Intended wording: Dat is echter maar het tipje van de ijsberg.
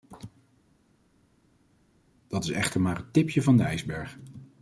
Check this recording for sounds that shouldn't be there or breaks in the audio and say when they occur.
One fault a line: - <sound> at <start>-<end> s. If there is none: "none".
none